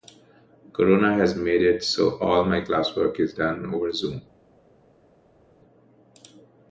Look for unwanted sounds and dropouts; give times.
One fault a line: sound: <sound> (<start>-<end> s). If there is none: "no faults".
no faults